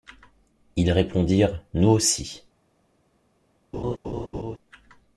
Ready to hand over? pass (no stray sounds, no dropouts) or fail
fail